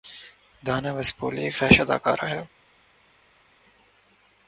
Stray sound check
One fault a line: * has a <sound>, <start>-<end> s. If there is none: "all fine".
all fine